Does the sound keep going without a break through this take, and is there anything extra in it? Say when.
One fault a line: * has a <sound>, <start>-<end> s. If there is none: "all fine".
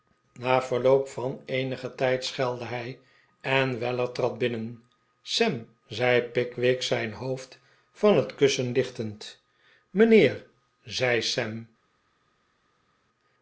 all fine